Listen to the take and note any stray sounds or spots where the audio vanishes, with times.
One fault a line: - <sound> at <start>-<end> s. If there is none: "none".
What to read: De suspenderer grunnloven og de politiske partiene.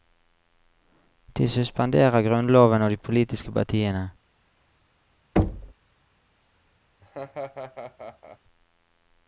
- thud at 5.4-5.7 s
- laugh at 7.0-8.4 s